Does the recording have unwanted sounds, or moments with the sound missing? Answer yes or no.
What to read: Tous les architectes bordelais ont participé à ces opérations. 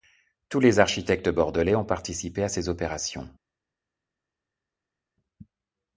no